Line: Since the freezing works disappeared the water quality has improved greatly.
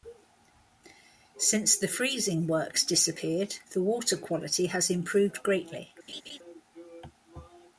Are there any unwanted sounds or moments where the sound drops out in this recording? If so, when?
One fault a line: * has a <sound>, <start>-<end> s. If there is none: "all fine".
* has a laugh, 6.1-6.4 s